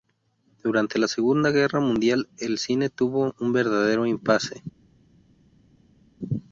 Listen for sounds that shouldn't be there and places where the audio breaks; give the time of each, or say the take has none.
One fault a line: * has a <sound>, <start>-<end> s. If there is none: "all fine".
all fine